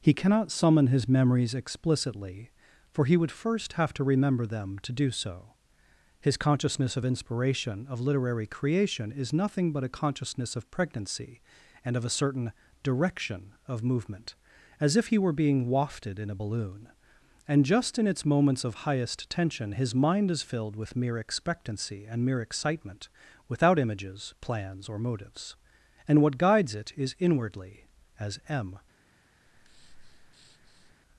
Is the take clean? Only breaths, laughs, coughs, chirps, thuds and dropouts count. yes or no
no